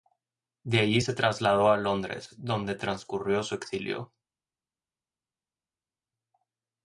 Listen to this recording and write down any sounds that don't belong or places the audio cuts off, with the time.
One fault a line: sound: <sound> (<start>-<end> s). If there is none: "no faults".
no faults